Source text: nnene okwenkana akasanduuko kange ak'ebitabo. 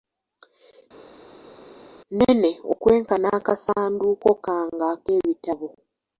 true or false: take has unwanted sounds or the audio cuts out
false